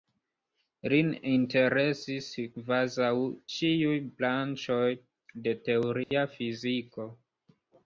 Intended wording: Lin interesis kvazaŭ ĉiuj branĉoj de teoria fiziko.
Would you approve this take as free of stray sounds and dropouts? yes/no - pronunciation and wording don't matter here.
no